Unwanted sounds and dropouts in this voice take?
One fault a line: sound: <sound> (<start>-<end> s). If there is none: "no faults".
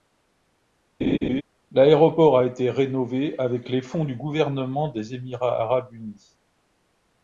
sound: laugh (1.0-1.4 s)